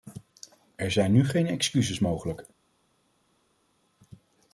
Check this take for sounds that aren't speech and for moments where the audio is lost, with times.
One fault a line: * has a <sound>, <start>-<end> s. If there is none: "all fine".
all fine